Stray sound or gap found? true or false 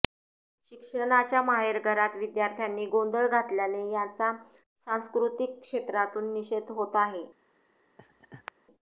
true